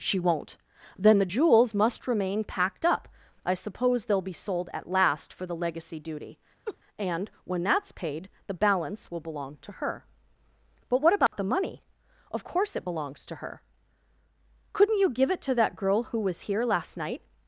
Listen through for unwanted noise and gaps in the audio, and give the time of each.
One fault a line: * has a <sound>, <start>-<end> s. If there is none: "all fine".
* has a laugh, 6.7-6.8 s
* has a dropout, 11.3-11.3 s